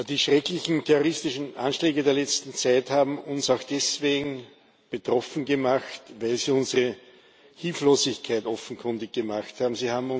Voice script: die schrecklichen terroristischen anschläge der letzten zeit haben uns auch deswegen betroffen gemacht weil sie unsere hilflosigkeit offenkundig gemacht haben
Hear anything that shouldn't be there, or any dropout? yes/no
no